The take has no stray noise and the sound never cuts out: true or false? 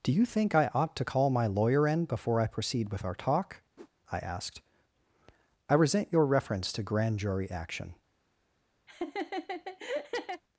false